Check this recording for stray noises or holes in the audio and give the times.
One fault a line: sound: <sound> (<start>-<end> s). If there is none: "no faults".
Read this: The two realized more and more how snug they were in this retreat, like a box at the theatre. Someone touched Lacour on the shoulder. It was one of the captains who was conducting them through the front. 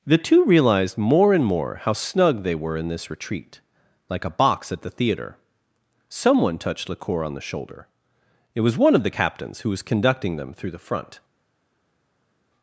no faults